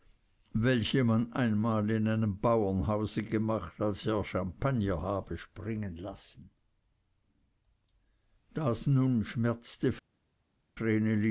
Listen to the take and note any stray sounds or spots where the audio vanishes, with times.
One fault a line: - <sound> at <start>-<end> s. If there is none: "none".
none